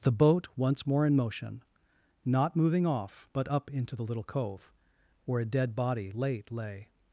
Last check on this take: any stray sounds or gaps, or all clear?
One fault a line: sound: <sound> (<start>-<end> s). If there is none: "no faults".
no faults